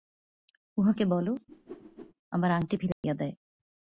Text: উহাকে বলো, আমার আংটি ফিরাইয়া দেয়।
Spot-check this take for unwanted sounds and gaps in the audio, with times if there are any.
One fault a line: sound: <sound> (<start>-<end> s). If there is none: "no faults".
sound: whoosh (1.5-2.1 s)
sound: dropout (2.9-3.0 s)